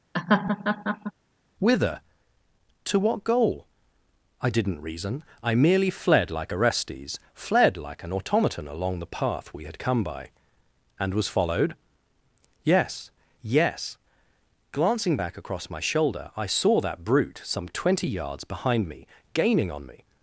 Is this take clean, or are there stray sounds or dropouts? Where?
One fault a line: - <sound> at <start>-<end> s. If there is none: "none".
- laugh at 0.1-1.1 s